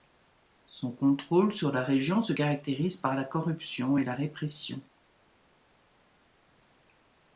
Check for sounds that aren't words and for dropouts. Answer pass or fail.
pass